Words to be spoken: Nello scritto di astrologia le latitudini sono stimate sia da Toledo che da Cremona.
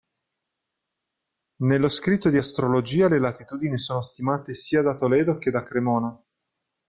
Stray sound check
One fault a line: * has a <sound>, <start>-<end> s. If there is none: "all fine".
all fine